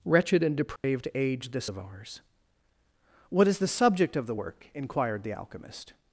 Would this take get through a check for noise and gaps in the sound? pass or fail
fail